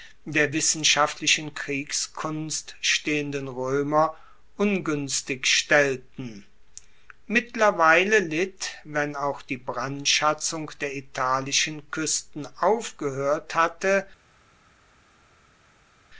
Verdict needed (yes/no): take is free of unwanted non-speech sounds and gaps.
yes